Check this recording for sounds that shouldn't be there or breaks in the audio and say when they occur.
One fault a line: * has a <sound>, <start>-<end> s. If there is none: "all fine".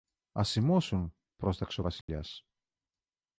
* has a dropout, 2.0-2.1 s